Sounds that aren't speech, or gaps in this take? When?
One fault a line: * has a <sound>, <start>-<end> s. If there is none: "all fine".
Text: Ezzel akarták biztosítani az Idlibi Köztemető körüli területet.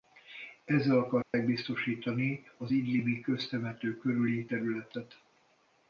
* has a dropout, 1.2-1.3 s